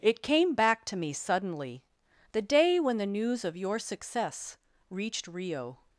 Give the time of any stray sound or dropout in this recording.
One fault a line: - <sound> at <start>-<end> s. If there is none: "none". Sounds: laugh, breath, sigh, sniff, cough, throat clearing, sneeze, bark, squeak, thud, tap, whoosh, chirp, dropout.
none